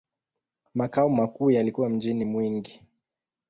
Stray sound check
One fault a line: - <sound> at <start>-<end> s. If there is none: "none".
none